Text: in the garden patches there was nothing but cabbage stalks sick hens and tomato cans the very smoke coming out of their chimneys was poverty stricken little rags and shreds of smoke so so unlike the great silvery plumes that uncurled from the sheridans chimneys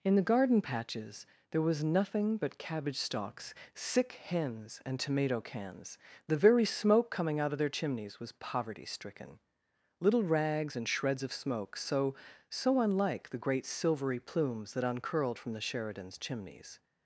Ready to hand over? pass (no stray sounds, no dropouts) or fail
pass